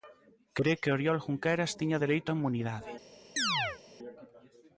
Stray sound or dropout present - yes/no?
yes